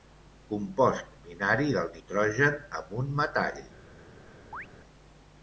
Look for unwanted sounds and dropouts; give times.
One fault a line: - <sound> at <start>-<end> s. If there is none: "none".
- chirp at 4.5-4.7 s